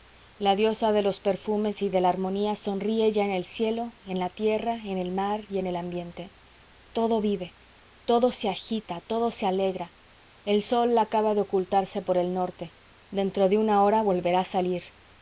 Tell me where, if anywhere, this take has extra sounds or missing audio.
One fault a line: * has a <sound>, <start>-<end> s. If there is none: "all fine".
all fine